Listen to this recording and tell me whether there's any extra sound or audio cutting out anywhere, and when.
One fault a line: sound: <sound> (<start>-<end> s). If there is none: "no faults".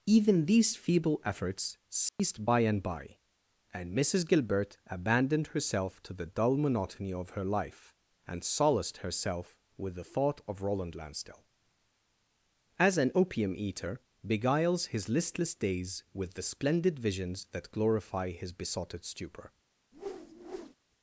sound: dropout (2.1-2.2 s)
sound: whoosh (19.9-20.8 s)